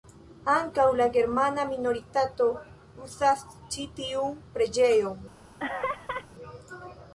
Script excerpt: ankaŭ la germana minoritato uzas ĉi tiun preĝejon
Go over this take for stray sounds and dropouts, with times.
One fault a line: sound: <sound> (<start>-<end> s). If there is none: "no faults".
sound: laugh (5.6-6.3 s)